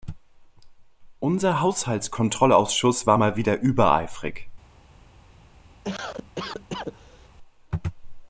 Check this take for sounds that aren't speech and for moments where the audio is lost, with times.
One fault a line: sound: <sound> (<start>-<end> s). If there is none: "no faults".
sound: cough (5.8-7.3 s)